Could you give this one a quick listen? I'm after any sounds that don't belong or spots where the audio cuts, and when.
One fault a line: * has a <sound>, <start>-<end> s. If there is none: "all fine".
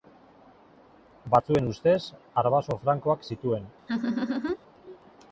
* has a laugh, 3.9-4.6 s